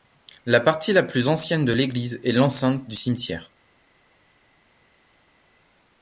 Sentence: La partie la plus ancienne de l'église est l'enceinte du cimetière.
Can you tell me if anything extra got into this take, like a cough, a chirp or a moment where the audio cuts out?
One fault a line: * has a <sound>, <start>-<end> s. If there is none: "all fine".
all fine